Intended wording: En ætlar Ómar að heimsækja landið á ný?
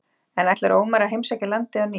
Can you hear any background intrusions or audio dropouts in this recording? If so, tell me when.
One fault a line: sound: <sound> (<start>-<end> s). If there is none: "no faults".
no faults